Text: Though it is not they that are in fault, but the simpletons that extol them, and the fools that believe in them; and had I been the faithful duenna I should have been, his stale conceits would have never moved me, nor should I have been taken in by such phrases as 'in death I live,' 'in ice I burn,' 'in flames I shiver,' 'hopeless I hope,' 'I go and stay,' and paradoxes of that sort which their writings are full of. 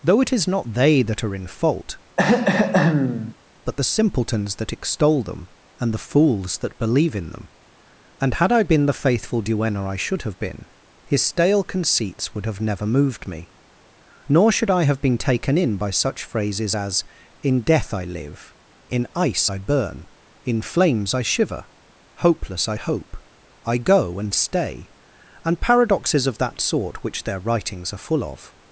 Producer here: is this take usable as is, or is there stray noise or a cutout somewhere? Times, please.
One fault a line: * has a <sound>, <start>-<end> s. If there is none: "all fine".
* has a throat clearing, 2.2-3.3 s